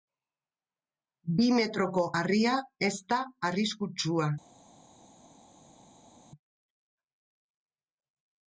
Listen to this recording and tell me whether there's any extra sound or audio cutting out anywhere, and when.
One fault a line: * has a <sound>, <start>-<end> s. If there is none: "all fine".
all fine